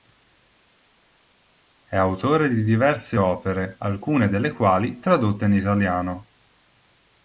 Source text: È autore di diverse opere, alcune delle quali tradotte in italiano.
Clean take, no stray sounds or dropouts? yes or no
yes